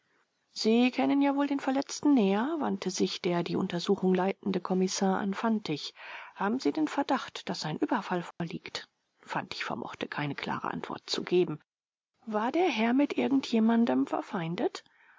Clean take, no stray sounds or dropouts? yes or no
no